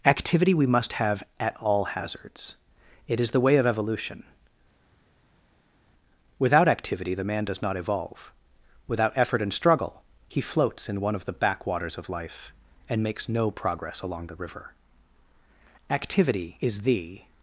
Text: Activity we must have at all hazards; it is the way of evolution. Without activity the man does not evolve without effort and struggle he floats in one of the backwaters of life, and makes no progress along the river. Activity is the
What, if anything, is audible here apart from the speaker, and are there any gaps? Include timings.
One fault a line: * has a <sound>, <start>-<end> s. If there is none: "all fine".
all fine